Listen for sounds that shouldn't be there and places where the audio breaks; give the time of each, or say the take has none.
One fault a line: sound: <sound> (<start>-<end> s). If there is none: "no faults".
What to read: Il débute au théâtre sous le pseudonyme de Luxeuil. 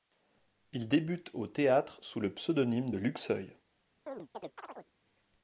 sound: chirp (4.1-4.9 s)